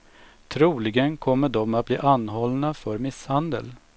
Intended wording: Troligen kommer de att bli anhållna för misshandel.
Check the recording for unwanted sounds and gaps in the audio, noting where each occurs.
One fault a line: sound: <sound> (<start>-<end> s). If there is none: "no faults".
no faults